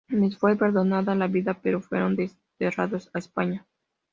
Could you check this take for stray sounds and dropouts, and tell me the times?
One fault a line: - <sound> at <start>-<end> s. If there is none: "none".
none